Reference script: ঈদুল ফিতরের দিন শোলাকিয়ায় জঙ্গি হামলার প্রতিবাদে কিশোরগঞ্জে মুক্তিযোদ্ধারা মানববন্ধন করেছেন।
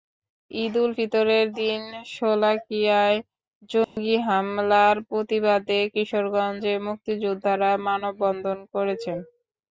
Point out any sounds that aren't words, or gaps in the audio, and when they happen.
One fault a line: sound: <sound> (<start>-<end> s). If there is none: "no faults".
sound: dropout (3.8-4.0 s)